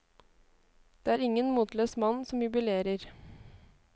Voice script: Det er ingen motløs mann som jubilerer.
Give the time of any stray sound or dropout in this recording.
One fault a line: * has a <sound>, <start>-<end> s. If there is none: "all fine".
all fine